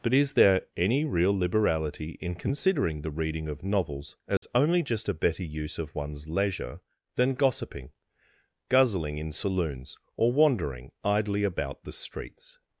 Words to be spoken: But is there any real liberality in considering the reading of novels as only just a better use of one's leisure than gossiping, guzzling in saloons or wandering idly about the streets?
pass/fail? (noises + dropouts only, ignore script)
fail